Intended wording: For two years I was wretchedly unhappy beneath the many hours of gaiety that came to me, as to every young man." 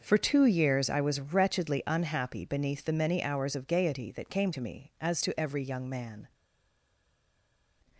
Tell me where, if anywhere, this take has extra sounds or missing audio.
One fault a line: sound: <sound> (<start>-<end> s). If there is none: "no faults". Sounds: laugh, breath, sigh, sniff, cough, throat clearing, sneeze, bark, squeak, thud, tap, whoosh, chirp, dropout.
no faults